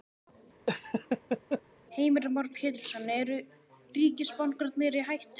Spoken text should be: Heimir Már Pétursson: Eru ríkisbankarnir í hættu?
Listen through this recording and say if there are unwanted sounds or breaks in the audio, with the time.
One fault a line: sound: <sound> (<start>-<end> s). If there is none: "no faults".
sound: laugh (0.7-1.6 s)